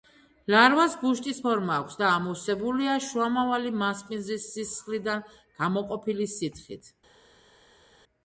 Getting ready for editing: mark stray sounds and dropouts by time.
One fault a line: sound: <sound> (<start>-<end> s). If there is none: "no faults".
no faults